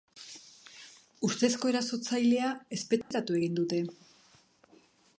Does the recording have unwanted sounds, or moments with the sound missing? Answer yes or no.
yes